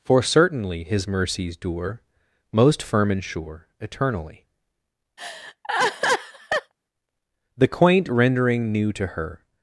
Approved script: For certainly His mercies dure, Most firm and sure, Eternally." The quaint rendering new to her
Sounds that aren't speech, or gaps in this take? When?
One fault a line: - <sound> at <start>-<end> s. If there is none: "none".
- laugh at 5.2-6.7 s